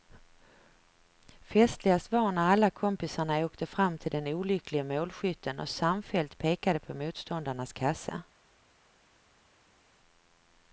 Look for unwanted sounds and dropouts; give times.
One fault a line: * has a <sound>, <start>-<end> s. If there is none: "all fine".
all fine